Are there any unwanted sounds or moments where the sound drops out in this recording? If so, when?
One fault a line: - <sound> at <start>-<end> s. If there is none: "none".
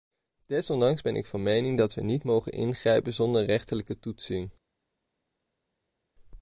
none